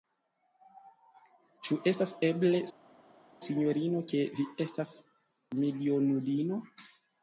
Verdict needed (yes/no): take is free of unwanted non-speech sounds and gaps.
yes